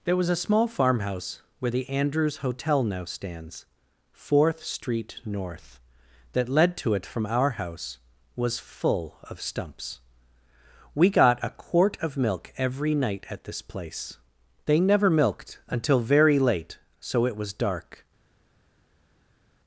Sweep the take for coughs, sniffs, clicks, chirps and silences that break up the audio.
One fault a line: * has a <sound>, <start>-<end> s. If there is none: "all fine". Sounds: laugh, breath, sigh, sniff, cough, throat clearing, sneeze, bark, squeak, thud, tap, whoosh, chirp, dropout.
all fine